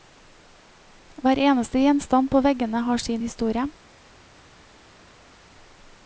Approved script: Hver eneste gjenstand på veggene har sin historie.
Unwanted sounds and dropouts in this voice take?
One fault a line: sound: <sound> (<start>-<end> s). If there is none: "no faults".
no faults